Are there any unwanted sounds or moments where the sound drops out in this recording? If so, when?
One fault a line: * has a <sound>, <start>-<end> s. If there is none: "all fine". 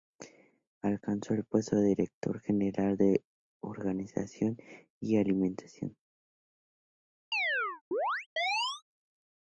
* has a chirp, 7.3-8.8 s